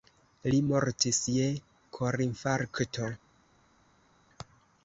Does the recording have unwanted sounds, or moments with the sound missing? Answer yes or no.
no